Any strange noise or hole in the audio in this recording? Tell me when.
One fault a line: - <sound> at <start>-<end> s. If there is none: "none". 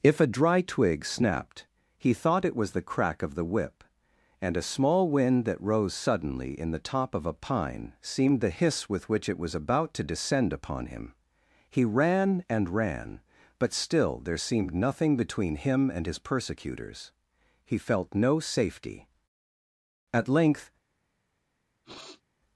- sniff at 21.8-22.2 s